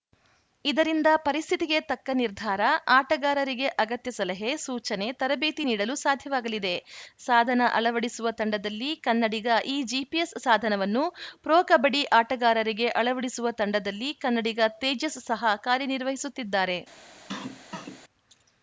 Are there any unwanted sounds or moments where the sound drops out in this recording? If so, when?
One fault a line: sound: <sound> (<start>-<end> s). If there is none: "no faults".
sound: cough (17.3-18.0 s)